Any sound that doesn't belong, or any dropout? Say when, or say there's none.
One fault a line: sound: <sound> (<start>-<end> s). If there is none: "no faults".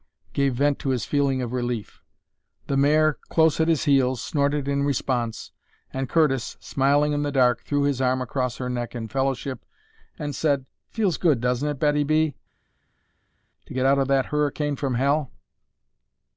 no faults